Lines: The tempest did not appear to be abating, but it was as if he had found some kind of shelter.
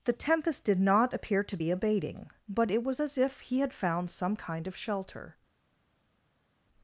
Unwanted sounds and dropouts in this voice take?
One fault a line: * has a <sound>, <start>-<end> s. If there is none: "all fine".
all fine